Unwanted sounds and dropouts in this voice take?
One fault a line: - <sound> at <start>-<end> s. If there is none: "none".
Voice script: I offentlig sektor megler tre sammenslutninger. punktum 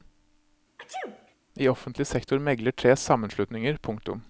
- sneeze at 0.8-1.4 s